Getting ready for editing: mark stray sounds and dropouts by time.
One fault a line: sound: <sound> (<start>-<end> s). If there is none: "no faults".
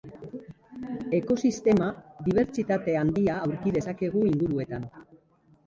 no faults